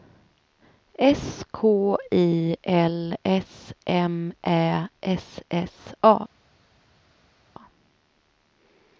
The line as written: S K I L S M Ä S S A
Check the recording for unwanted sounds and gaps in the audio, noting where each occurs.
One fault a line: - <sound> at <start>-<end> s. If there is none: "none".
none